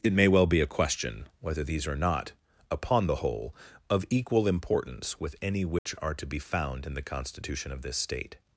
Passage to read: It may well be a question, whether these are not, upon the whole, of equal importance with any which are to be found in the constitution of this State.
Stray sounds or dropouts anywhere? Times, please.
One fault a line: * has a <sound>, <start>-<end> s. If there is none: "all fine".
* has a dropout, 5.8-5.9 s